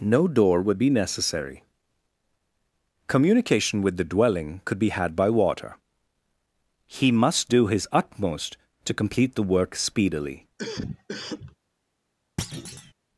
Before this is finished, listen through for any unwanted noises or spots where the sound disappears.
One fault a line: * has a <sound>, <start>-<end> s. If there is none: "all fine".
* has a cough, 10.6-11.6 s
* has a thud, 12.4-12.9 s